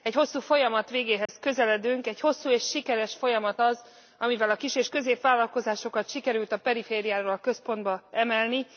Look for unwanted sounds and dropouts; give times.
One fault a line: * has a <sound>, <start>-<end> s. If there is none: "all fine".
* has a dropout, 1.3-1.3 s